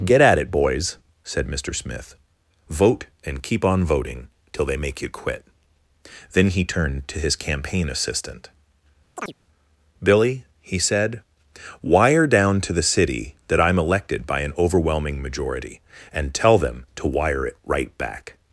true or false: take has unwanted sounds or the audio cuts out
true